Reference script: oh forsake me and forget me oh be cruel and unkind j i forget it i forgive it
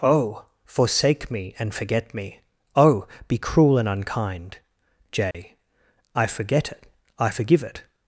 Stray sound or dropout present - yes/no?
yes